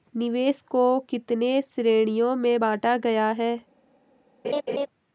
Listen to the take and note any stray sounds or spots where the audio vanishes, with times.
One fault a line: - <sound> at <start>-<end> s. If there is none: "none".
- laugh at 4.4-4.9 s